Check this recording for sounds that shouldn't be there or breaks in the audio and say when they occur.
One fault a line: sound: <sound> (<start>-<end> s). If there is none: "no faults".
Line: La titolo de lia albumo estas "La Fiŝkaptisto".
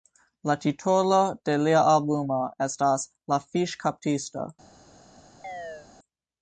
sound: chirp (5.4-5.9 s)